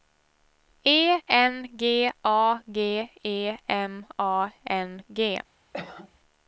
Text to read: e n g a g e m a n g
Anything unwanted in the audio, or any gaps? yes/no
yes